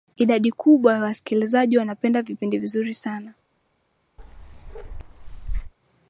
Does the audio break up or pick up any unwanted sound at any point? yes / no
yes